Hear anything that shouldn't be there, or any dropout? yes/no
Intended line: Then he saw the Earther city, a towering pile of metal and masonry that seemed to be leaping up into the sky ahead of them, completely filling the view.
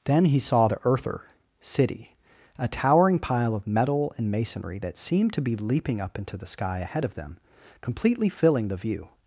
no